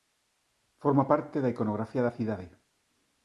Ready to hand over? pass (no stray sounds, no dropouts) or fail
pass